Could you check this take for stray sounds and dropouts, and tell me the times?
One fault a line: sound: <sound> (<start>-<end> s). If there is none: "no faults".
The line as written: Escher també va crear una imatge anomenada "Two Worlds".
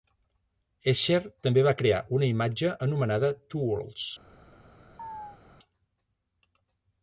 sound: chirp (5.0-5.4 s)